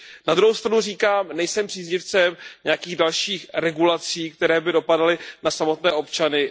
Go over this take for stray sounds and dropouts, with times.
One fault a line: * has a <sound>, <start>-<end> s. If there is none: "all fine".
all fine